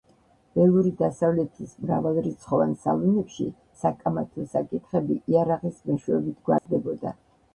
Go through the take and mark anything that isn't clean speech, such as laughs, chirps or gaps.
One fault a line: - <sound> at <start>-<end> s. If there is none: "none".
- dropout at 6.6-6.7 s